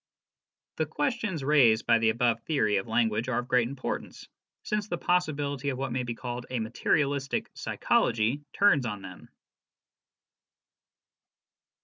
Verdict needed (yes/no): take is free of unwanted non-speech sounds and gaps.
yes